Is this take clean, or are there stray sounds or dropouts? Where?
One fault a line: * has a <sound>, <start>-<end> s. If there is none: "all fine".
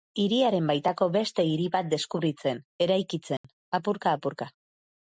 * has a dropout, 3.4-3.4 s